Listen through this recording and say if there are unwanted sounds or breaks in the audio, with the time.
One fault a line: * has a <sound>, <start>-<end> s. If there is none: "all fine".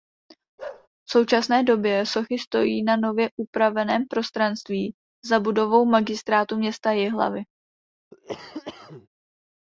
* has a bark, 0.6-0.9 s
* has a cough, 8.1-9.1 s